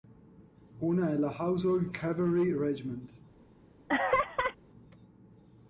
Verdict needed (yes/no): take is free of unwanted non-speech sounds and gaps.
no